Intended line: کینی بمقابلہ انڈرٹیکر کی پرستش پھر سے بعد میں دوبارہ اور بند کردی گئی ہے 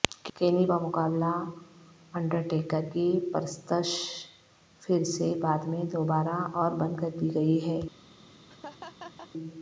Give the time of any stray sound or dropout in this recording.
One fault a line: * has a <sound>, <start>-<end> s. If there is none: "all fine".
* has a laugh, 8.5-9.3 s